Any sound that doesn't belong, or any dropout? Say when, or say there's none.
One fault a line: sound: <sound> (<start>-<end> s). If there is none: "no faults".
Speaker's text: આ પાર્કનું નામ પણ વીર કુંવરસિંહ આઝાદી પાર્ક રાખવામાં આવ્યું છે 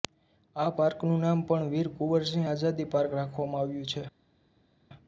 no faults